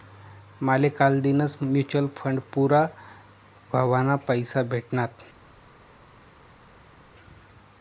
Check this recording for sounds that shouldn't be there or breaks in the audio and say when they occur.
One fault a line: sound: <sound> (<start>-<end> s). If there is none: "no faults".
no faults